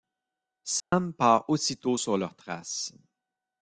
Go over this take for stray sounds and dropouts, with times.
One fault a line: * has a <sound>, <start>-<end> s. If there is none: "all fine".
* has a dropout, 0.8-0.9 s